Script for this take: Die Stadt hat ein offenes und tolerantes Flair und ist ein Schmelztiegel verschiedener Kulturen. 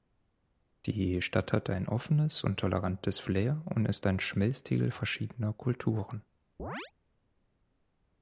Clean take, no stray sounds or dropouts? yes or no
no